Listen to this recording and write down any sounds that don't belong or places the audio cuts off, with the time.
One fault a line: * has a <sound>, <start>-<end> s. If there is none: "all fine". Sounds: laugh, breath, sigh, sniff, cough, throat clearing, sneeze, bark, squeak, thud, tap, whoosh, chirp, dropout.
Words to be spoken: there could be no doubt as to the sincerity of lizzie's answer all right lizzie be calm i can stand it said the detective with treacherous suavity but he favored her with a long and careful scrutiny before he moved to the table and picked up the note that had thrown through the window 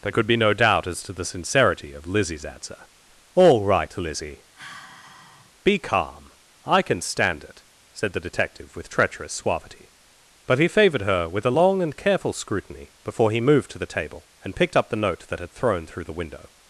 * has a sigh, 4.5-5.5 s